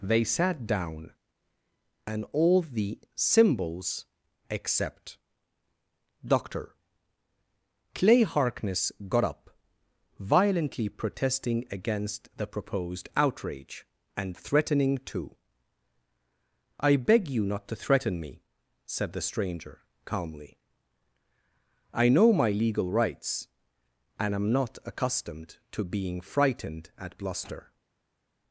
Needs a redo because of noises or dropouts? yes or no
no